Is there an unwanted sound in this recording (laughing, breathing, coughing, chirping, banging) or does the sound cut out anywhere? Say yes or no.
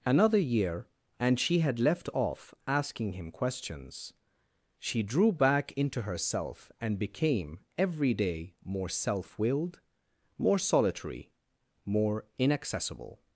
no